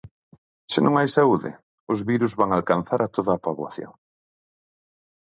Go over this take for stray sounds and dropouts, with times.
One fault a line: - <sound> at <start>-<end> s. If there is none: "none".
none